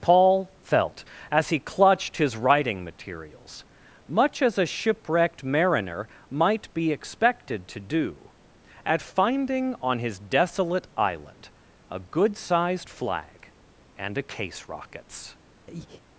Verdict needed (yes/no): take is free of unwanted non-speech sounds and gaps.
no